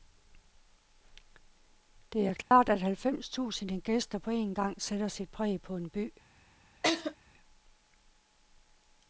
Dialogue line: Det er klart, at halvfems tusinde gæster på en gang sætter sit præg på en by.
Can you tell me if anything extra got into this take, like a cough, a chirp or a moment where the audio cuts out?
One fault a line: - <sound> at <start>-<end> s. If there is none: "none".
- dropout at 2.4-2.5 s
- laugh at 6.8-7.1 s